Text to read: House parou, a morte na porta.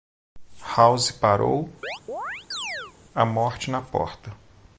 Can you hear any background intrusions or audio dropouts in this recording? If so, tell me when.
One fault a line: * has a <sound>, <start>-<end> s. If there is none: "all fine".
* has a chirp, 1.8-2.9 s